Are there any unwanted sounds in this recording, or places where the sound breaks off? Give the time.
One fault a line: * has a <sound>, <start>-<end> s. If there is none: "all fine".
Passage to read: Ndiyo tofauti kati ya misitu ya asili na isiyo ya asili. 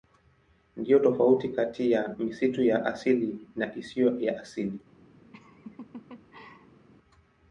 * has a laugh, 5.3-6.9 s